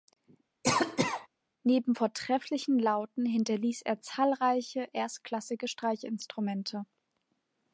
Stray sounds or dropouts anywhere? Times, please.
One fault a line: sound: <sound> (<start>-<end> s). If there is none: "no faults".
sound: cough (0.6-1.3 s)